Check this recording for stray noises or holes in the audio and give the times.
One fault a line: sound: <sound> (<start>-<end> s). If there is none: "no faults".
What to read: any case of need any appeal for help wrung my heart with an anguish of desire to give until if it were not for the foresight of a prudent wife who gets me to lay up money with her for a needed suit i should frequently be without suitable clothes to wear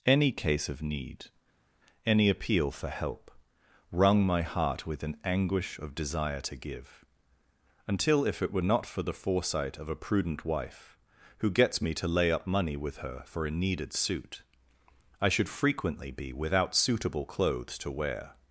no faults